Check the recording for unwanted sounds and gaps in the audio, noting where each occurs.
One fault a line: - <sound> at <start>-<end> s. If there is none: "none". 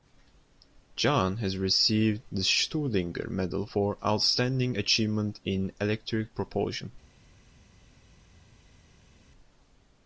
none